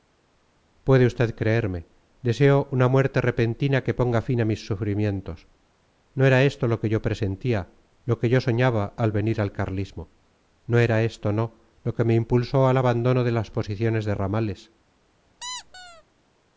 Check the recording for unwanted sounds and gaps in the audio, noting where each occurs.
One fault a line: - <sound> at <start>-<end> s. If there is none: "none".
- squeak at 15.4-16.0 s